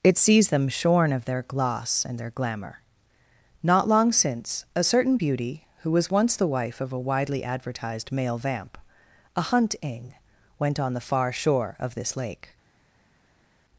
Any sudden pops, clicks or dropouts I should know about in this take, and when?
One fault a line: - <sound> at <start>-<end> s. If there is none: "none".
none